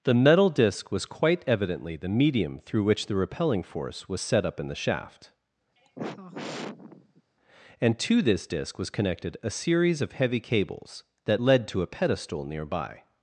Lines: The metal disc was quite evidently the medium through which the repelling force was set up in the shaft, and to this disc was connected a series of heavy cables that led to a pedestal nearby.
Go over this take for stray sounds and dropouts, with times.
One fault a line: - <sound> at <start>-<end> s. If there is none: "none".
- sigh at 5.8-7.2 s